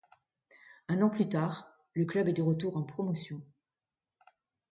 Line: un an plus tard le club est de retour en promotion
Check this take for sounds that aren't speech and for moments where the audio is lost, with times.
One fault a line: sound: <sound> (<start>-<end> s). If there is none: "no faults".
no faults